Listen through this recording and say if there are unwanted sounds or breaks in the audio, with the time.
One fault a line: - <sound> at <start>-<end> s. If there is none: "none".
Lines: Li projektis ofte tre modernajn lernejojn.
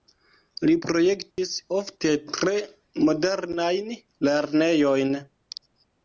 - dropout at 1.3-1.4 s